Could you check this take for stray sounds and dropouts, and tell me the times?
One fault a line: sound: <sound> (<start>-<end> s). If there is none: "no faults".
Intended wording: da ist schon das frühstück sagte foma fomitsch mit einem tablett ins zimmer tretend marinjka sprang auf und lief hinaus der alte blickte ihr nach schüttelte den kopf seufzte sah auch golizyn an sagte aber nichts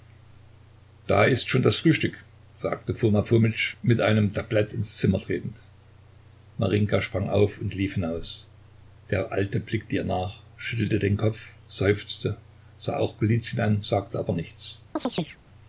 sound: chirp (15.0-15.4 s)